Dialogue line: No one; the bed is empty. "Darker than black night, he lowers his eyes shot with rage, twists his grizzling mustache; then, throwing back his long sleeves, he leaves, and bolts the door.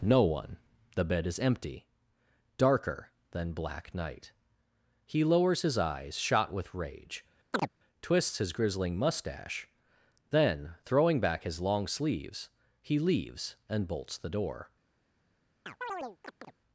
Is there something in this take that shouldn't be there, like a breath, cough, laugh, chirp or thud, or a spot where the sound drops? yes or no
yes